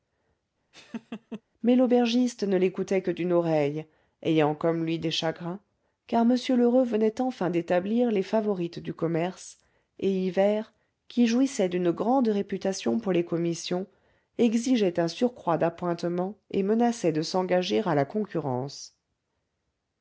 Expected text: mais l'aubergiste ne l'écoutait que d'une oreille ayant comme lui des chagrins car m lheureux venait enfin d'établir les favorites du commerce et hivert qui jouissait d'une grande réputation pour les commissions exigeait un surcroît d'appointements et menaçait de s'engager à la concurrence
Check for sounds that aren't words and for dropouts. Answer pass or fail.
fail